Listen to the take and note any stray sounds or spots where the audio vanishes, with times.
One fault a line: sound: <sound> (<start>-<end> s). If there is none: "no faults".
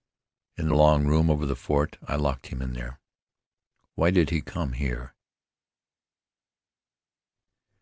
no faults